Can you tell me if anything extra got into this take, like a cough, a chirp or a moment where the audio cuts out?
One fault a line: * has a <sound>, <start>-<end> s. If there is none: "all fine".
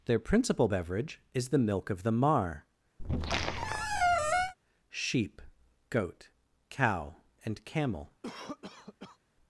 * has a squeak, 3.0-4.5 s
* has a cough, 8.2-9.2 s